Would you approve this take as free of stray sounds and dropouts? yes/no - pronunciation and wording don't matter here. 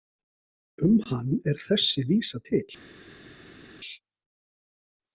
yes